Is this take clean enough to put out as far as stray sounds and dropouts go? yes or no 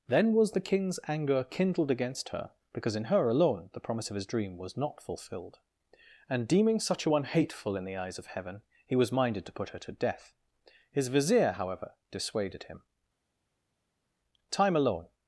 yes